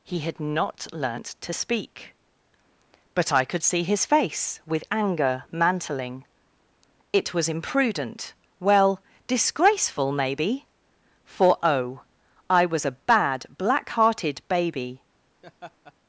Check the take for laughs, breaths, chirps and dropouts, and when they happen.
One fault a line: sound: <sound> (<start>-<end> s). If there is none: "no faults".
sound: laugh (15.4-15.9 s)